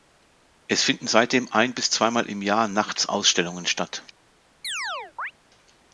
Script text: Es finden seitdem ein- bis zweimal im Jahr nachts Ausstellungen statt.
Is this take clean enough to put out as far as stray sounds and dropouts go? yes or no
no